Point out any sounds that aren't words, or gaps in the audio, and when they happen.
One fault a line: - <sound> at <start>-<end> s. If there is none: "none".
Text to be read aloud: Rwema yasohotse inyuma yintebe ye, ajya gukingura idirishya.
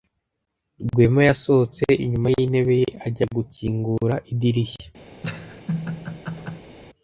- laugh at 5.2-6.7 s